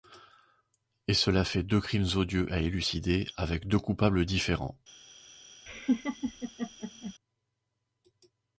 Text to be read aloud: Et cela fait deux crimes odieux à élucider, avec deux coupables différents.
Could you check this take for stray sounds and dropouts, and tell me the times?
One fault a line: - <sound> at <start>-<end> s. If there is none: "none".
- laugh at 5.7-7.1 s